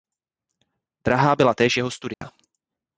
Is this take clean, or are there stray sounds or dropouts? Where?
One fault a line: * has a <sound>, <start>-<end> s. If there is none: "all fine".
* has a dropout, 2.1-2.2 s